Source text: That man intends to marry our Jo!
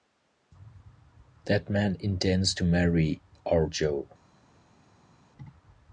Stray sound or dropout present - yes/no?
no